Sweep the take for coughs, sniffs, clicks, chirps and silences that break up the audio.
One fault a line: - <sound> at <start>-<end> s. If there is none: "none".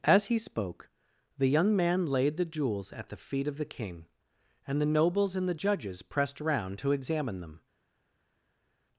none